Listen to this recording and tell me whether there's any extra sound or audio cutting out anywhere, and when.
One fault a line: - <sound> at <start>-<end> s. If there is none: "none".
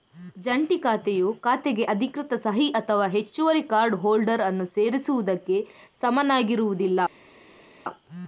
none